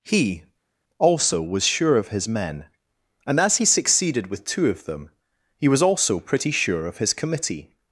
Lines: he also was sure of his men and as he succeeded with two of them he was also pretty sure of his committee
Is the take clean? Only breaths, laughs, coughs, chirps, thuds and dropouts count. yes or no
yes